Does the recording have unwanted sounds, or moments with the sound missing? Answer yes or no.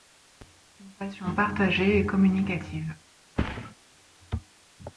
yes